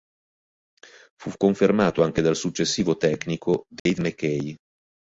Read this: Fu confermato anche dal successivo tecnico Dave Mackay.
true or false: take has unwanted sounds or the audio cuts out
true